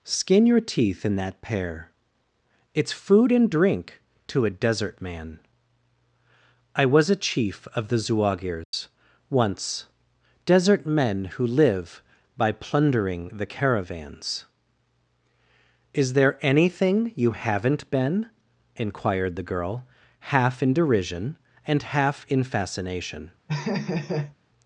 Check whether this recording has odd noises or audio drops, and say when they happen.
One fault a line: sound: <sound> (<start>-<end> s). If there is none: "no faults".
sound: dropout (8.6-8.7 s)
sound: laugh (23.5-24.4 s)